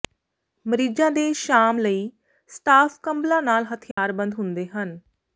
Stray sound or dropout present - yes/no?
yes